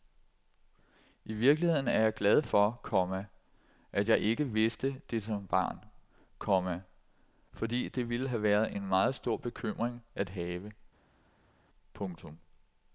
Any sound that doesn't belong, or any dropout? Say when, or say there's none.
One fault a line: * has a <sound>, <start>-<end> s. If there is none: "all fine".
all fine